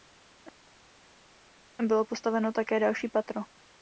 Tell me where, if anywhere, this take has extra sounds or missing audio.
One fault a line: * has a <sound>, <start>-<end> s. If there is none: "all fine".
all fine